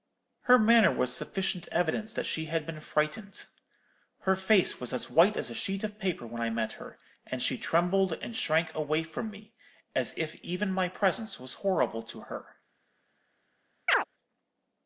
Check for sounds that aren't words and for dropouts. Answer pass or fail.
fail